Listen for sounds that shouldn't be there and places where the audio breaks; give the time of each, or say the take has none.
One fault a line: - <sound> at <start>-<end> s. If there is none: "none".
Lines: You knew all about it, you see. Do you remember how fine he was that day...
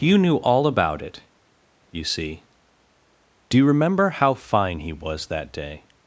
none